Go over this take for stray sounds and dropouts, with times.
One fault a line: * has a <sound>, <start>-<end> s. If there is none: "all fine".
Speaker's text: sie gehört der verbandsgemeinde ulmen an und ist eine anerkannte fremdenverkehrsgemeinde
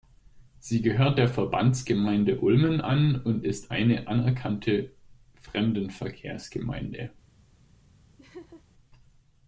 * has a laugh, 8.2-8.6 s